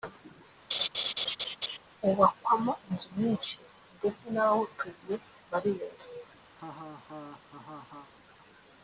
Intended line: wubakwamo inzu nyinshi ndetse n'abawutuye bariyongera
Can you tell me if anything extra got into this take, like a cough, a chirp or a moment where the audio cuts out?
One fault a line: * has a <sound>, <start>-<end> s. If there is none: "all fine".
* has a laugh, 0.7-1.8 s
* has a laugh, 6.6-8.1 s